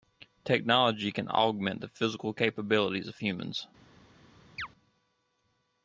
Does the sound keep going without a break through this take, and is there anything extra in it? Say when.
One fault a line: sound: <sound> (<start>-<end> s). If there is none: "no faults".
sound: chirp (4.6-4.7 s)